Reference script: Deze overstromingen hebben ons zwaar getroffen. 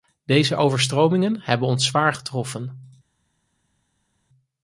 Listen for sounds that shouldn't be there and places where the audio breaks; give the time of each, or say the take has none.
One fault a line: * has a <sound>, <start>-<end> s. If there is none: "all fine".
all fine